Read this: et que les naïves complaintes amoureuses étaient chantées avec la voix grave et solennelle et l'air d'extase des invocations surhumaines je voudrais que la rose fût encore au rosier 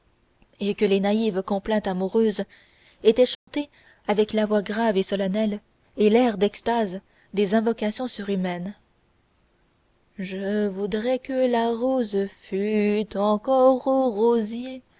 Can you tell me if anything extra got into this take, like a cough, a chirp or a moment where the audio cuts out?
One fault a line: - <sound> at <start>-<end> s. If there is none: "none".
- dropout at 3.3-3.5 s